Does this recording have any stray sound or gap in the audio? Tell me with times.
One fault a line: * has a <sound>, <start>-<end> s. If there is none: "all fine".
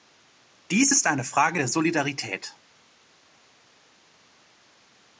all fine